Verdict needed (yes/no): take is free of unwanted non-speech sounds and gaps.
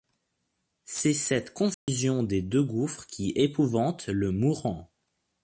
no